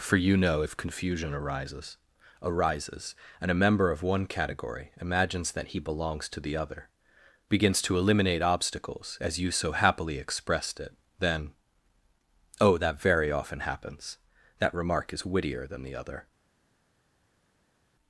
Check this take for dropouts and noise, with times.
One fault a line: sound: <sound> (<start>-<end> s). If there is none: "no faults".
no faults